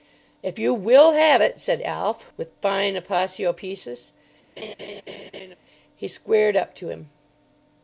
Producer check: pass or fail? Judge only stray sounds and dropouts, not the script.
fail